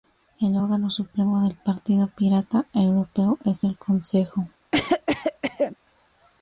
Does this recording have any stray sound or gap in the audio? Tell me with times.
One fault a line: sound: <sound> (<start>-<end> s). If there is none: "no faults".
sound: cough (4.7-5.8 s)